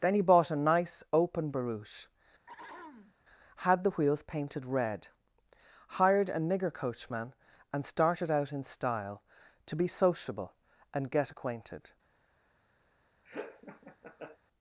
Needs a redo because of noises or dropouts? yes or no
yes